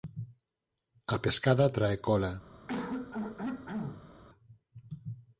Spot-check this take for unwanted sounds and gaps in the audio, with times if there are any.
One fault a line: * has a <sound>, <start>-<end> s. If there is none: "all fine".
* has a throat clearing, 2.7-4.1 s